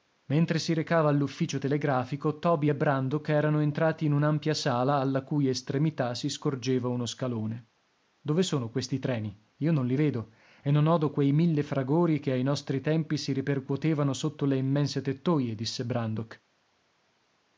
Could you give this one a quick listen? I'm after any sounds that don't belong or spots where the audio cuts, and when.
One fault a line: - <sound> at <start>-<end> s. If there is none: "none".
none